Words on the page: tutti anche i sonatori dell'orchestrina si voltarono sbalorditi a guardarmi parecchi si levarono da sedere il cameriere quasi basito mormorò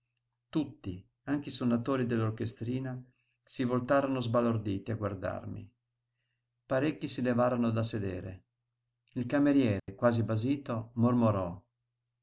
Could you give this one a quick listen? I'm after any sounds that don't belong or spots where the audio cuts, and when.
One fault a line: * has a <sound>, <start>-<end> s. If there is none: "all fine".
* has a dropout, 9.8-9.9 s